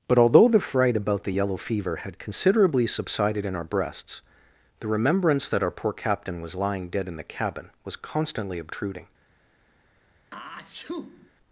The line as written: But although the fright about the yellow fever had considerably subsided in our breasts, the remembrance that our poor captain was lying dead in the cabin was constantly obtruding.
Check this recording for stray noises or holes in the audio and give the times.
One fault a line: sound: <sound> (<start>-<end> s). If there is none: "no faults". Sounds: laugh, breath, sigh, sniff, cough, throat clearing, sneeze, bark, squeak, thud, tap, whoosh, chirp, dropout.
sound: sneeze (10.3-11.3 s)